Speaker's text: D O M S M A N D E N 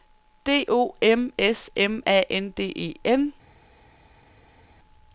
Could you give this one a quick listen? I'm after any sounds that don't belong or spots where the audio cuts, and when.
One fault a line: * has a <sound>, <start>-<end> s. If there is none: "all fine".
all fine